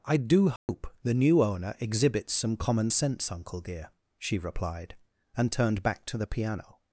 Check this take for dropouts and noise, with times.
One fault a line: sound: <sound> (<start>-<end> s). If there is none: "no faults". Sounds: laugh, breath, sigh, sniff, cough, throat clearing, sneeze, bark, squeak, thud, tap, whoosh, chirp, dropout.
sound: dropout (0.6-0.7 s)